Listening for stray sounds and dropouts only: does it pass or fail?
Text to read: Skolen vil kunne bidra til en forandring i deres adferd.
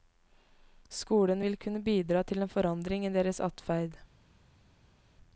pass